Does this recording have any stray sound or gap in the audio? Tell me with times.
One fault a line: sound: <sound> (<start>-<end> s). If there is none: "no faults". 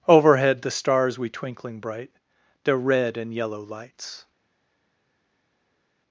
no faults